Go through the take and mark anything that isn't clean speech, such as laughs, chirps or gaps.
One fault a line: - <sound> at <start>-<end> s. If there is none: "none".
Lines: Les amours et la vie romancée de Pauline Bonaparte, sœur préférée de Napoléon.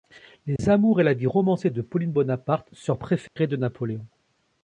- dropout at 0.6-0.6 s
- dropout at 3.3-3.4 s